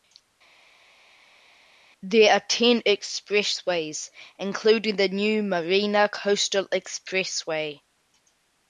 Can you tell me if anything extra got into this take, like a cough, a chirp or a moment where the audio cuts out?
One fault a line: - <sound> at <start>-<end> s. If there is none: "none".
none